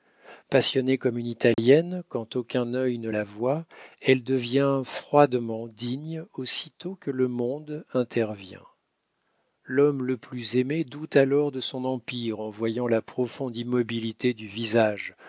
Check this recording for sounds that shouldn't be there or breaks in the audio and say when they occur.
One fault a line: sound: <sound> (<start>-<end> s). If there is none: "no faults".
sound: dropout (1.5-1.6 s)